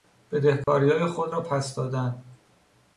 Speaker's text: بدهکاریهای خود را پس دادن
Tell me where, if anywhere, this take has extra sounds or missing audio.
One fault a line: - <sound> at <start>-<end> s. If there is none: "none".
- dropout at 0.6-0.7 s